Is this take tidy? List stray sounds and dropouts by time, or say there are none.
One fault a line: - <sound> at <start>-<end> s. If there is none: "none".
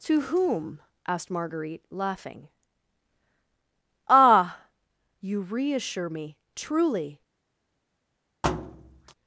- thud at 8.4-9.1 s